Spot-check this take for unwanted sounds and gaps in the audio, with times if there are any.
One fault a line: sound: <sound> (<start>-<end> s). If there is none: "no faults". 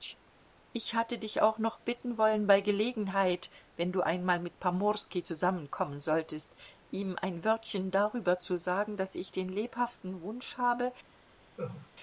sound: laugh (11.6-11.9 s)